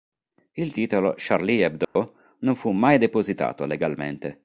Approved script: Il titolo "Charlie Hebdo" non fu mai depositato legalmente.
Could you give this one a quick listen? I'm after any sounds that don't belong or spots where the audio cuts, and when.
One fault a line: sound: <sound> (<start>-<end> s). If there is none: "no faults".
sound: dropout (1.8-2.0 s)